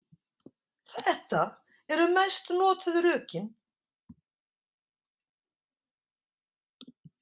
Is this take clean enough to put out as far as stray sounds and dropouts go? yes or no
yes